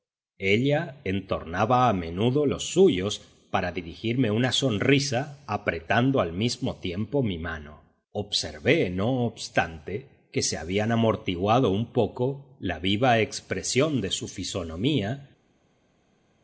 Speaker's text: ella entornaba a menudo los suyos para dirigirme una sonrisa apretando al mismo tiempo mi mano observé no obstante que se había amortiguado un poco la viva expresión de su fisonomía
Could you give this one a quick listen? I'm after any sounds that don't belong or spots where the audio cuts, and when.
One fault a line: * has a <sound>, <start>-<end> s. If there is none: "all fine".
all fine